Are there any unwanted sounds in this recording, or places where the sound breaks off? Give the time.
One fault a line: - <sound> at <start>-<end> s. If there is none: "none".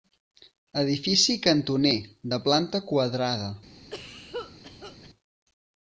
- cough at 3.9-5.1 s